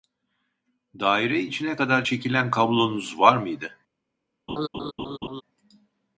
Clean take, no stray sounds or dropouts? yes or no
no